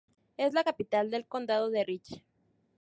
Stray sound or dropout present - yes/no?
no